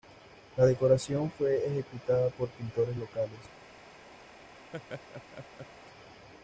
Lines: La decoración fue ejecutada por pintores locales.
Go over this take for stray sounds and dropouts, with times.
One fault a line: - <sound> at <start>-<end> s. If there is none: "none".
- laugh at 4.7-5.7 s